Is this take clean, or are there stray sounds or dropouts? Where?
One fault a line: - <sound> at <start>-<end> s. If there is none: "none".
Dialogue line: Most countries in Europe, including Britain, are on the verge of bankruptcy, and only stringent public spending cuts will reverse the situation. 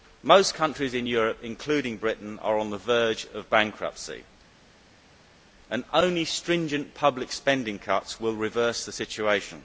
none